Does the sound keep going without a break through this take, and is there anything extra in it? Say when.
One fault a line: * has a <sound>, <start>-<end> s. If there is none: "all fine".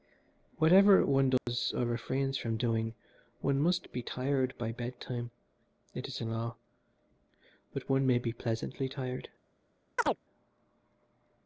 * has a dropout, 1.4-1.5 s
* has a chirp, 10.0-10.2 s